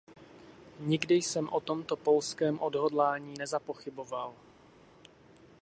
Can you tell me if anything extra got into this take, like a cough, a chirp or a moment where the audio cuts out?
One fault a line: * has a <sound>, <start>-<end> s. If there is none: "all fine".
all fine